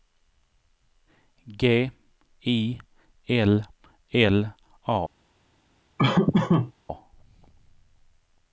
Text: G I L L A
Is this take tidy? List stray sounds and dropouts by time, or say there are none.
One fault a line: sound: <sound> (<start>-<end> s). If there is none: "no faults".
sound: laugh (6.0-6.7 s)